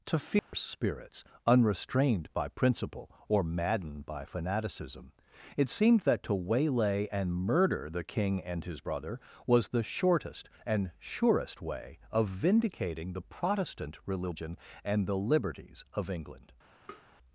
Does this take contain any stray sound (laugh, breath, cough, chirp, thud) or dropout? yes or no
yes